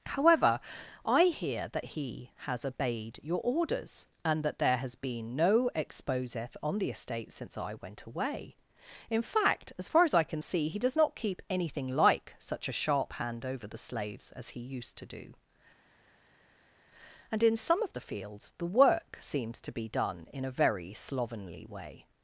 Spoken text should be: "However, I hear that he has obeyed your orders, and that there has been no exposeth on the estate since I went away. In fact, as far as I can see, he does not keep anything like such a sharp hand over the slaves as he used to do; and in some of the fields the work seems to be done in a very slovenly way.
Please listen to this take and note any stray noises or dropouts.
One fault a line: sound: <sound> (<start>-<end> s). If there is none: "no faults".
no faults